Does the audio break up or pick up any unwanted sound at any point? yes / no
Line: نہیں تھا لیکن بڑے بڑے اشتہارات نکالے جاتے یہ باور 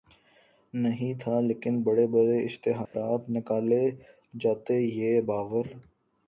yes